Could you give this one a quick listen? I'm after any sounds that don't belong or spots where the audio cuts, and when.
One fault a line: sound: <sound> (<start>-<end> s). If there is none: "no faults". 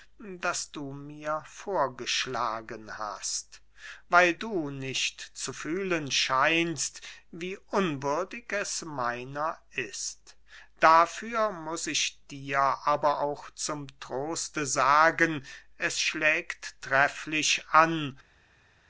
no faults